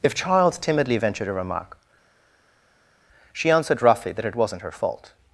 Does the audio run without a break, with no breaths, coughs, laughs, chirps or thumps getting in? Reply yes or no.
yes